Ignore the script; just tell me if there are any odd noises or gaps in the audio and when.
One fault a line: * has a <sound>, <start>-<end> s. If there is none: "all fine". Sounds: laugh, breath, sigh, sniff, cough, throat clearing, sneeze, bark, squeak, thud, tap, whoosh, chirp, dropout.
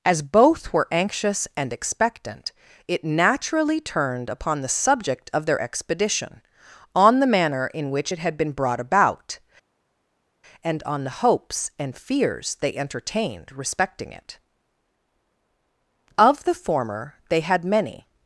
all fine